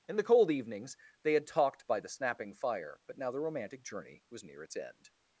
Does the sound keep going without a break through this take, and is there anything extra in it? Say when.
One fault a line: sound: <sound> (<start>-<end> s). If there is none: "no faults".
no faults